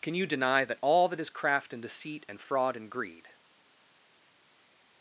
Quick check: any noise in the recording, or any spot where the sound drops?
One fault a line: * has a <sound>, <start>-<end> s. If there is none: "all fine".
all fine